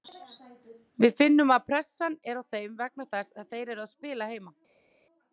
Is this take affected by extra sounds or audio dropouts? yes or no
no